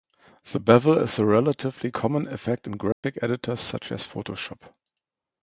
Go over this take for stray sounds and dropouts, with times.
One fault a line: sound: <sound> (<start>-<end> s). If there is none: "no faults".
sound: dropout (2.9-3.0 s)